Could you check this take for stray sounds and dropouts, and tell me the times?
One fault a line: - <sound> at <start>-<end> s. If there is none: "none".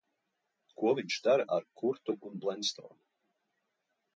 none